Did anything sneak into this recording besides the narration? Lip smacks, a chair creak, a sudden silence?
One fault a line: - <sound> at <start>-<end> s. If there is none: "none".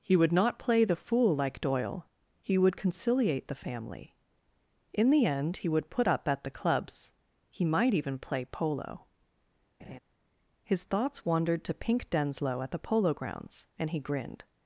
- laugh at 9.8-10.0 s